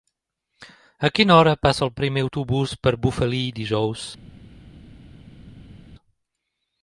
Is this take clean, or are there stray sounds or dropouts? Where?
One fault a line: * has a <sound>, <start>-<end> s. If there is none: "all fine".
all fine